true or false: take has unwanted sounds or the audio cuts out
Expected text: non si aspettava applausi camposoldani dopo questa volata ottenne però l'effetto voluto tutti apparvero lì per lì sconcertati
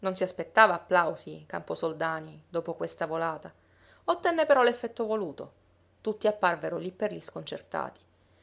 false